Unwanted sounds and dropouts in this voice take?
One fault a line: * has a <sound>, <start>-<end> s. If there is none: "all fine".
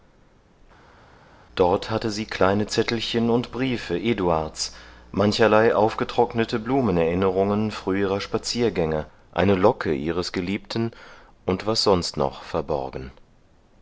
all fine